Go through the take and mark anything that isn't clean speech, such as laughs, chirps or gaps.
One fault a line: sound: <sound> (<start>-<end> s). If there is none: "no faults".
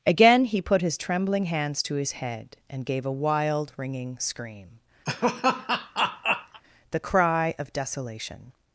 sound: laugh (5.1-6.6 s)